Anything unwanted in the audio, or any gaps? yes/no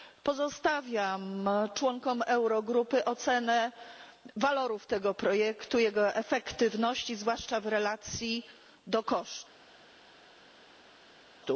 no